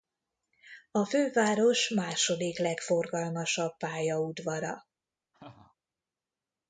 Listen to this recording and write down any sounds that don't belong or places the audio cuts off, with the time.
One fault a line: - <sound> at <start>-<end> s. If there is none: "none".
- laugh at 5.3-5.8 s